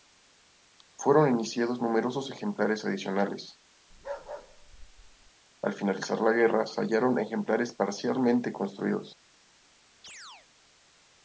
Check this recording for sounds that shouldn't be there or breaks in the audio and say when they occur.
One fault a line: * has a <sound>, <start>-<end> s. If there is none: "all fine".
* has a bark, 3.9-5.3 s
* has a chirp, 10.0-10.5 s